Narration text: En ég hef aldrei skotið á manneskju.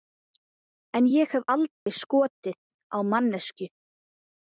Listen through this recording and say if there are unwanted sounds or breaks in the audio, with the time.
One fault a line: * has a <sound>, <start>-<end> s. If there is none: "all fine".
* has a dropout, 1.7-1.9 s